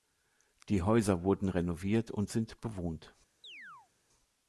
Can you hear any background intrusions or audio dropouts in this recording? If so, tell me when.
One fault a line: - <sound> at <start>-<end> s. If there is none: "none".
- chirp at 3.4-3.9 s